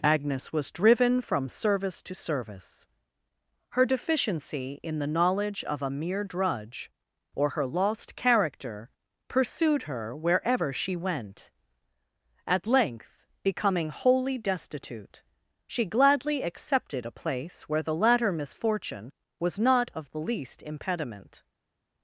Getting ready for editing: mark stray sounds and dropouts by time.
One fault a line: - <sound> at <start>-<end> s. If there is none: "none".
none